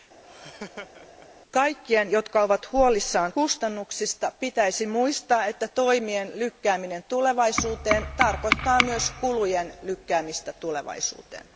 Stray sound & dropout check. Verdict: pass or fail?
fail